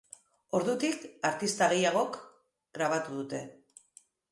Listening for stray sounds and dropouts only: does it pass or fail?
pass